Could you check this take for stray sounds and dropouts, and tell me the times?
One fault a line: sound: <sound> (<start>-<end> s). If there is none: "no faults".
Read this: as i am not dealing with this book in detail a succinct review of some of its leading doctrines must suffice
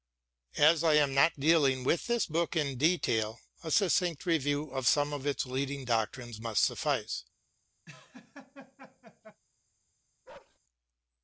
sound: laugh (7.9-9.4 s)
sound: bark (10.3-10.6 s)